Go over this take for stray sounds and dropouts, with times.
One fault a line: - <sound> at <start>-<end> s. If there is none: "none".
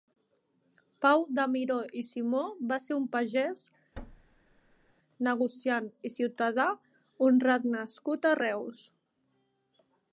- thud at 4.0-4.9 s